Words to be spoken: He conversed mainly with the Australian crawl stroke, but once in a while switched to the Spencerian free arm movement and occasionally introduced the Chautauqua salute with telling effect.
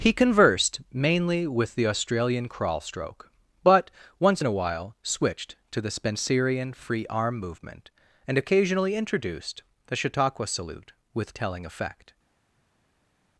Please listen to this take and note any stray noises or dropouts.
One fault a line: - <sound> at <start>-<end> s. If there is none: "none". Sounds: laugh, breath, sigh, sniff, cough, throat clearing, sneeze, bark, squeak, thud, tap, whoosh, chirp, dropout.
none